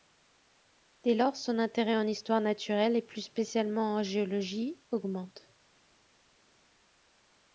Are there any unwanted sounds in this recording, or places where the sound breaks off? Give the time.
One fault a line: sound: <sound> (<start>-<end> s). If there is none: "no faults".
no faults